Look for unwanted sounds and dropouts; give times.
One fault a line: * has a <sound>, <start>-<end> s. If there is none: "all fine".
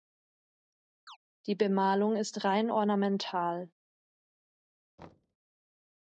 * has a chirp, 1.1-1.2 s
* has a thud, 5.0-5.4 s